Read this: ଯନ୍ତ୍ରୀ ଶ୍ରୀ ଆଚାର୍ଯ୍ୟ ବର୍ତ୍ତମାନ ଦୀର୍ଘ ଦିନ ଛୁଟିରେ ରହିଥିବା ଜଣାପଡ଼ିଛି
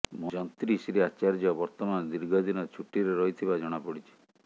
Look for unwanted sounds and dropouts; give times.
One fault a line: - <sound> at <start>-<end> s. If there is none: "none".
none